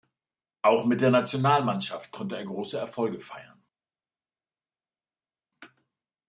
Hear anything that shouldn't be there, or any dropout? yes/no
no